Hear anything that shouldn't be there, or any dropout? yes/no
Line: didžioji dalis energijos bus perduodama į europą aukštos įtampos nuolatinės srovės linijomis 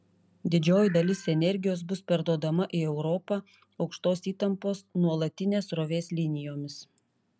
no